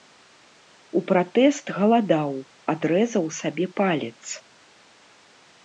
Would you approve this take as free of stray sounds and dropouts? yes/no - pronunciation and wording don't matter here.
yes